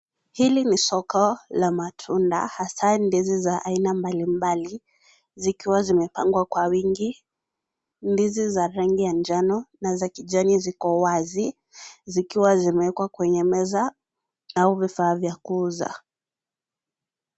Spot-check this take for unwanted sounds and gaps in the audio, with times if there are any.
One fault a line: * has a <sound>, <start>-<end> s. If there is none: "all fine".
all fine